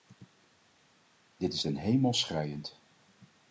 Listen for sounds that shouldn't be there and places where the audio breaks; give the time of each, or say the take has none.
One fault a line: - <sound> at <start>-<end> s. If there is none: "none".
none